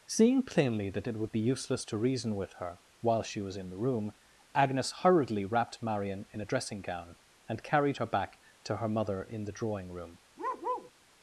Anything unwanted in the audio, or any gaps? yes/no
yes